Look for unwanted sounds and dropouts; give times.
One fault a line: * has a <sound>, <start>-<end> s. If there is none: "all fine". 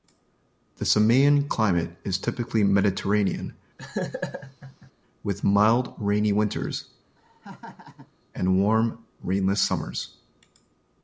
* has a laugh, 3.8-4.9 s
* has a laugh, 7.2-8.1 s